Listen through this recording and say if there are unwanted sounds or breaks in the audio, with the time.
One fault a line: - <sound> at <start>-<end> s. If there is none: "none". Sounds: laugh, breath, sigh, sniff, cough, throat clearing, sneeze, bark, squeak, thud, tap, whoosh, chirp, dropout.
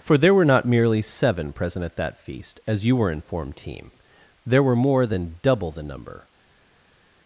none